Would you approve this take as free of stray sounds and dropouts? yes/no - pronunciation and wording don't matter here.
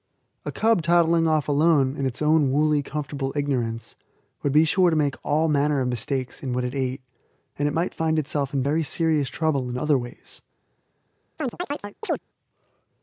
no